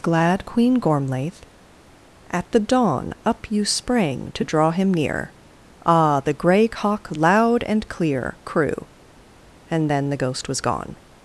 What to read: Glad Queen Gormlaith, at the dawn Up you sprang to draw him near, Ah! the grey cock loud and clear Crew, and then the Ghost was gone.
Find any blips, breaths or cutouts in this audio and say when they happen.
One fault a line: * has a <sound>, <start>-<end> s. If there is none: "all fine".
all fine